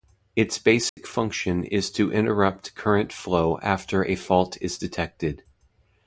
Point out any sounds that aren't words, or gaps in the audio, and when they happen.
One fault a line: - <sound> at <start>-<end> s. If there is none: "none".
- dropout at 0.9-1.0 s